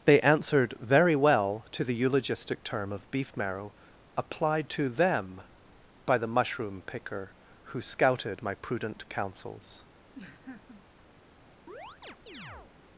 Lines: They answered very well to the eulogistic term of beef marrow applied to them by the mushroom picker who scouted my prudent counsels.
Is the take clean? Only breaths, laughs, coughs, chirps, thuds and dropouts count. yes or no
no